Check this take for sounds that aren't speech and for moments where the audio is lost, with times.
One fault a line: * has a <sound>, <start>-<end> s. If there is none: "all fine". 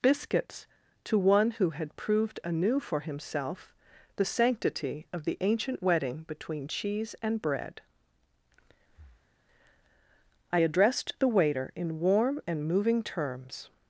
* has a breath, 8.9-9.4 s